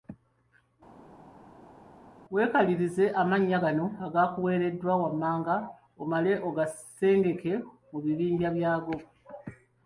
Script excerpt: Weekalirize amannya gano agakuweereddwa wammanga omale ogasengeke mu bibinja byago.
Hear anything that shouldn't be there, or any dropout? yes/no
no